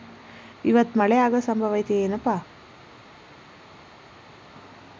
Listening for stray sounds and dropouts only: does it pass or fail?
pass